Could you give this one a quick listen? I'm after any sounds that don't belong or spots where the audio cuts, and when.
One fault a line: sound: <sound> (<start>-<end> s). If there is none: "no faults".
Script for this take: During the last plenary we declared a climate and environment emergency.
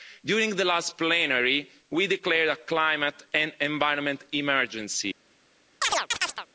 sound: chirp (5.8-6.5 s)